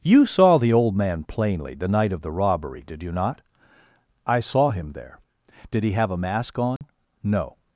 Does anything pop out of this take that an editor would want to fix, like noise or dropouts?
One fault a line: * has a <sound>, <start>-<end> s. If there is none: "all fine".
* has a dropout, 6.8-6.8 s